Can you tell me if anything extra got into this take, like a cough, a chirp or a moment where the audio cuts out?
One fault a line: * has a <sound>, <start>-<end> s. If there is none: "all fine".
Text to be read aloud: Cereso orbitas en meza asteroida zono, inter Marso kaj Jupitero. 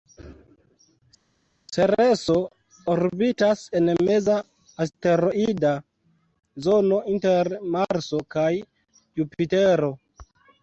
all fine